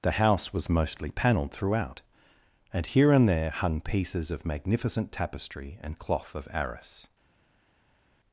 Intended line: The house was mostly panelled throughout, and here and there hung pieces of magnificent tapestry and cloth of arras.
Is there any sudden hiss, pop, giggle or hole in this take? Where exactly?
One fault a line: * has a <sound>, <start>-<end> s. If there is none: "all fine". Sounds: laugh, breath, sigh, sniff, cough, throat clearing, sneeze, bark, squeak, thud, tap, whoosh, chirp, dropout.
all fine